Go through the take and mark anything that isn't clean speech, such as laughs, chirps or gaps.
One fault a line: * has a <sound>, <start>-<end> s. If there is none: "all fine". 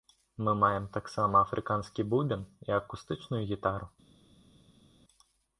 all fine